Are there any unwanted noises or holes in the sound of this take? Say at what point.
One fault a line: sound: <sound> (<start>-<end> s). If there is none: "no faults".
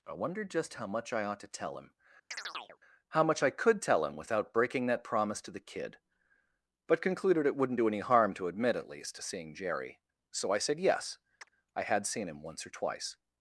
sound: chirp (2.3-2.8 s)
sound: chirp (11.4-11.5 s)